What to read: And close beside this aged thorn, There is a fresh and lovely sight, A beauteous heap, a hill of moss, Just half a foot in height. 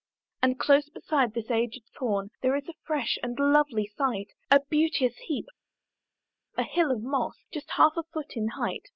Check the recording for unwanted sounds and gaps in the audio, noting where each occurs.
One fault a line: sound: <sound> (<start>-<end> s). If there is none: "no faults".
no faults